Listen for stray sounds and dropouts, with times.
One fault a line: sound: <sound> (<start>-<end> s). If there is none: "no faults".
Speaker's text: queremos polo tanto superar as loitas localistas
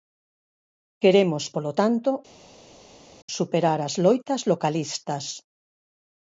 no faults